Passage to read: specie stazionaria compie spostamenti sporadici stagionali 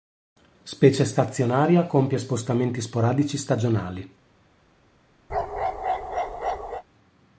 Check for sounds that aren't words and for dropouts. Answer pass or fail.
fail